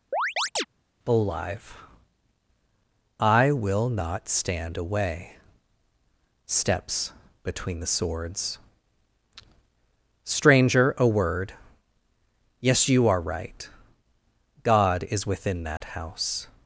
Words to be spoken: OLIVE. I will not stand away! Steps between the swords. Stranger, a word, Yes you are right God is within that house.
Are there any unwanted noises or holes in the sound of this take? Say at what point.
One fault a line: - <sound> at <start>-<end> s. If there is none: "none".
- chirp at 0.1-0.7 s
- dropout at 15.8-15.8 s